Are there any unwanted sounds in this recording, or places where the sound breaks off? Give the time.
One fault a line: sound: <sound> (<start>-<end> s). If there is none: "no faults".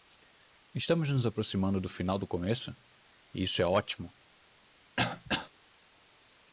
sound: throat clearing (5.0-5.5 s)